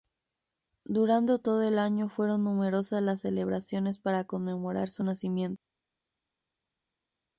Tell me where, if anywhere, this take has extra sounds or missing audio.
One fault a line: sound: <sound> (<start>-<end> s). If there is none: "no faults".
no faults